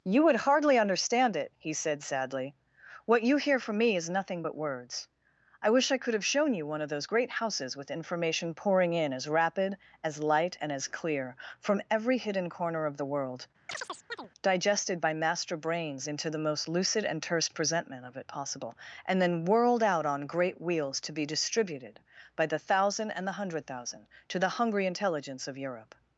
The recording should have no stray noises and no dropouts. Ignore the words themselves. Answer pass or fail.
fail